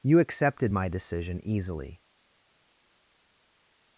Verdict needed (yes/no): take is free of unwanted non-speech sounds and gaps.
yes